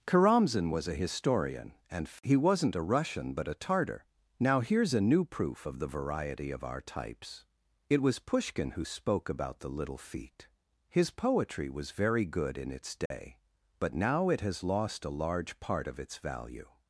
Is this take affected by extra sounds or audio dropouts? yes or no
yes